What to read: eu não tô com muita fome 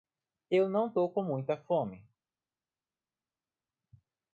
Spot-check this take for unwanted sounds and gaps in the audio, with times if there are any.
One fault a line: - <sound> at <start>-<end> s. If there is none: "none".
none